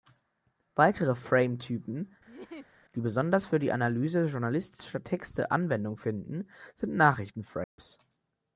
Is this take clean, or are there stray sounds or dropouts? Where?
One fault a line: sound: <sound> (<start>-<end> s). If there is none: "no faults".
sound: laugh (2.3-2.8 s)
sound: dropout (7.6-7.8 s)